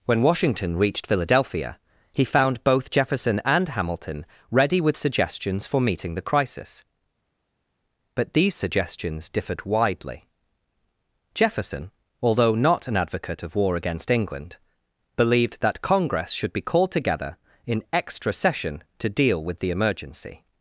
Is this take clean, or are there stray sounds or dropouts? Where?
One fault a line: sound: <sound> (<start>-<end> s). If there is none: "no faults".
no faults